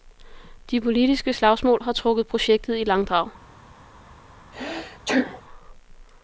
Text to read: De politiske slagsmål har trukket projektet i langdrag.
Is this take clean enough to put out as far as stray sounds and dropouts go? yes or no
no